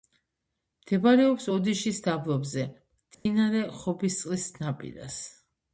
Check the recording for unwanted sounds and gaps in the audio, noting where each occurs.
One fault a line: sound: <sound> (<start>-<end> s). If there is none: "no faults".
sound: dropout (3.1-3.3 s)